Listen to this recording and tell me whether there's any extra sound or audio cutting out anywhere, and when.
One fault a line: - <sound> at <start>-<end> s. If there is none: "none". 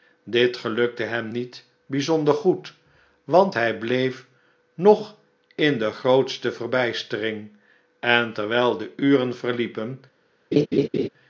- laugh at 10.5-11.1 s